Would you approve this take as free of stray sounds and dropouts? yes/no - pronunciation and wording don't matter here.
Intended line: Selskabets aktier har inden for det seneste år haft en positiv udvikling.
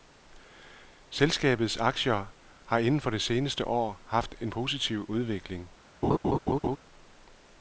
no